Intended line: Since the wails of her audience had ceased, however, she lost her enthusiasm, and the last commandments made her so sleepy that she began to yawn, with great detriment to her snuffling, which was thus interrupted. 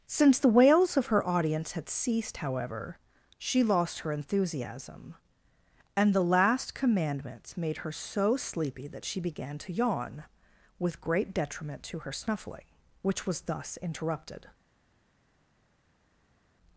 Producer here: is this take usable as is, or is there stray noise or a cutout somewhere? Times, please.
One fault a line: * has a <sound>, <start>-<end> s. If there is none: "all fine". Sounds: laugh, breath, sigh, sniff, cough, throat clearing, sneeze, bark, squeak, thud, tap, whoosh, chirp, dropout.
all fine